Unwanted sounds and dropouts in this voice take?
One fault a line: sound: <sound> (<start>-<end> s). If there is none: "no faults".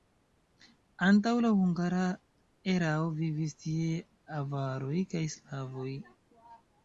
no faults